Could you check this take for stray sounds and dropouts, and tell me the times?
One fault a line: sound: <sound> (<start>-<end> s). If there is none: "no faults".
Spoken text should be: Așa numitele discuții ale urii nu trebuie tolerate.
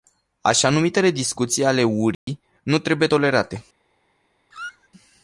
sound: dropout (2.1-2.3 s)
sound: squeak (4.5-4.9 s)